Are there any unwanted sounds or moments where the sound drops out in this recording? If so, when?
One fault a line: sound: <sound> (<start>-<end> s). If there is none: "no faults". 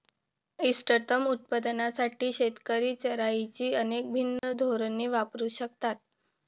sound: dropout (4.4-4.4 s)